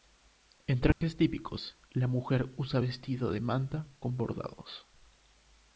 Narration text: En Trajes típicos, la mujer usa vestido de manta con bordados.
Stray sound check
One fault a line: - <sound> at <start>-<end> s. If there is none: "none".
- dropout at 0.9-1.0 s